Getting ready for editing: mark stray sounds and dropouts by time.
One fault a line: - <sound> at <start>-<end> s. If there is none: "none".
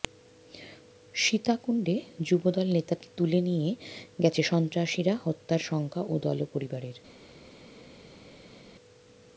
none